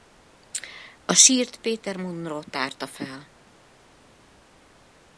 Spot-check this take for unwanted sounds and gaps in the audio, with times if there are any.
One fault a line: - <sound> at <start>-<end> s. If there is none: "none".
none